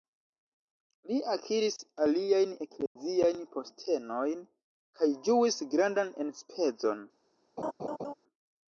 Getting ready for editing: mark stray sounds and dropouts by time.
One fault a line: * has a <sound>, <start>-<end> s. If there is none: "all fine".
* has a dropout, 2.9-3.0 s
* has a laugh, 7.6-8.1 s